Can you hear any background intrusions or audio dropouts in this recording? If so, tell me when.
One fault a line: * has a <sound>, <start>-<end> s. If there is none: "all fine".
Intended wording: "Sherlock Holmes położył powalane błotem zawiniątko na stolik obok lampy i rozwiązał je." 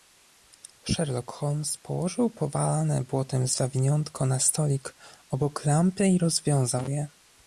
all fine